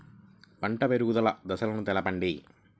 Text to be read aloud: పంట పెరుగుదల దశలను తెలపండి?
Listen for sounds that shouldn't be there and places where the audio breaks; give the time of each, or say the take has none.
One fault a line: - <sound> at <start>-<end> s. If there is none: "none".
none